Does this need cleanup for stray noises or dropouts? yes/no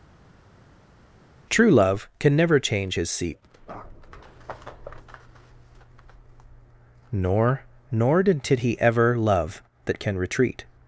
no